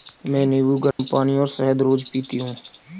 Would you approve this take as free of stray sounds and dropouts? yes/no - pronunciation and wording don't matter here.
no